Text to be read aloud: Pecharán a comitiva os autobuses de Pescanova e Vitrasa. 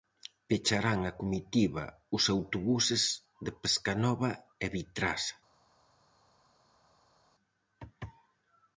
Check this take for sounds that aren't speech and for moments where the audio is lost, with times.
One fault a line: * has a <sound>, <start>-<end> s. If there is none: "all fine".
all fine